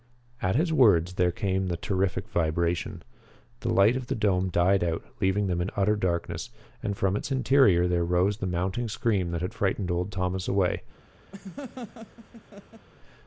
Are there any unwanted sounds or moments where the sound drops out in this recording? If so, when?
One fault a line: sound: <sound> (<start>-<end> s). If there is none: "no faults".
sound: laugh (11.3-12.9 s)